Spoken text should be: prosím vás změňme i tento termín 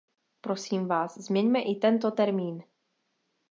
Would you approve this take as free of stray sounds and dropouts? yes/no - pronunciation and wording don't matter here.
yes